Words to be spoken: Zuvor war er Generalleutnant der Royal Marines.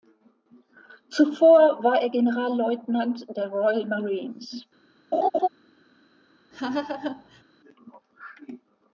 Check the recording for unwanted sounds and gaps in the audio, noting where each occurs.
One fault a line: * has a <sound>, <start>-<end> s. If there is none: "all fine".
* has a laugh, 5.1-5.5 s
* has a laugh, 6.5-7.4 s